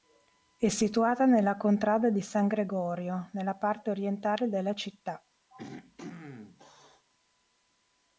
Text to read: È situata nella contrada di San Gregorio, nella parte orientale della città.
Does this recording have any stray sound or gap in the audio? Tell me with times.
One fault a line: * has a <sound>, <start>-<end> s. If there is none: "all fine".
* has a throat clearing, 5.5-7.1 s